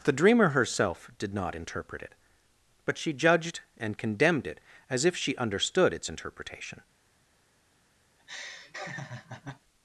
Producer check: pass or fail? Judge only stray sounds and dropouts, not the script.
fail